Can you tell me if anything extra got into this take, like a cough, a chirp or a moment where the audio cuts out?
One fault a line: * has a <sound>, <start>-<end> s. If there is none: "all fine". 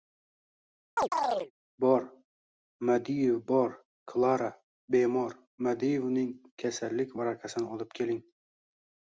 * has a chirp, 1.0-1.5 s